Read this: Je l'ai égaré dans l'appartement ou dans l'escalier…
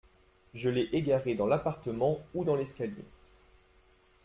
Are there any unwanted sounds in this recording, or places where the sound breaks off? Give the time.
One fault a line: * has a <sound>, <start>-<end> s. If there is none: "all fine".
all fine